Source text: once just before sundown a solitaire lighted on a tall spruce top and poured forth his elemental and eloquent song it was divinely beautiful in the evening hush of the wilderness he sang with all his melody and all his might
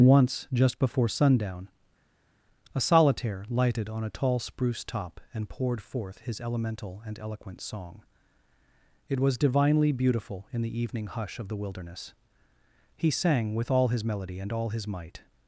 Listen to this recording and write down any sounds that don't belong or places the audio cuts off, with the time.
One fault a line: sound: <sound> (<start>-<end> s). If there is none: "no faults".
no faults